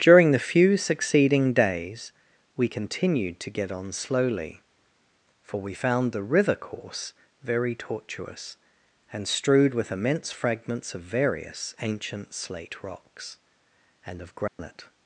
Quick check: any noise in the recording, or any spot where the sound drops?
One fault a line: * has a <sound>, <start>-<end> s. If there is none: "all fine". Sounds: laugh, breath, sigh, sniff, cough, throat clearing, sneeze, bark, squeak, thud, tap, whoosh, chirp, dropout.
* has a dropout, 14.5-14.6 s